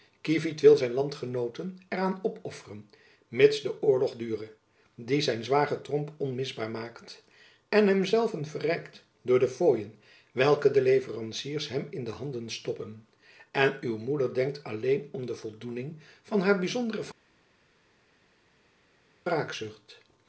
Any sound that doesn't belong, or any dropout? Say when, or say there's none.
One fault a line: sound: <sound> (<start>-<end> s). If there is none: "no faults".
no faults